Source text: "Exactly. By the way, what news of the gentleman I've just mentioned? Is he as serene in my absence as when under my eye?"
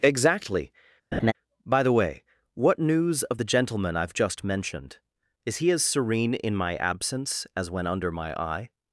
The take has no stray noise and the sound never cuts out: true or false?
false